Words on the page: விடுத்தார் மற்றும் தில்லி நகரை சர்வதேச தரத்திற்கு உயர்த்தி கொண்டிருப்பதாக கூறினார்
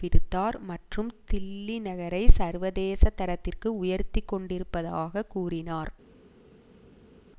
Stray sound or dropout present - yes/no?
no